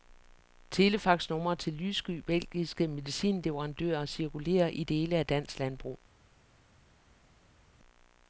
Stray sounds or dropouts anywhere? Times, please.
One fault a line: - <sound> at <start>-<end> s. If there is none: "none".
none